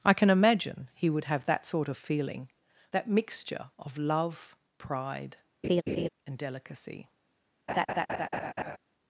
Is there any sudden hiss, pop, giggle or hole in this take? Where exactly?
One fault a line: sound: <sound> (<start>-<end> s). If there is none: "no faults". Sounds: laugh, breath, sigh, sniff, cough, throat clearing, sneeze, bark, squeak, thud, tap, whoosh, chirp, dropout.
sound: laugh (5.6-6.1 s)
sound: laugh (7.7-8.8 s)